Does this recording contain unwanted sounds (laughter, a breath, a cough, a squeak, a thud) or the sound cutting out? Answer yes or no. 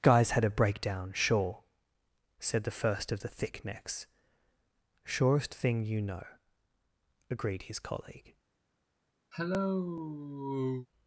yes